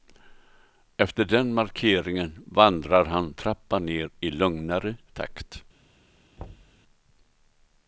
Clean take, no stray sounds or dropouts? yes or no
no